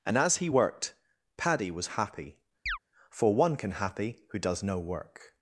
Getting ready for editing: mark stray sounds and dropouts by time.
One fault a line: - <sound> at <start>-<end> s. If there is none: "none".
- chirp at 2.7-2.8 s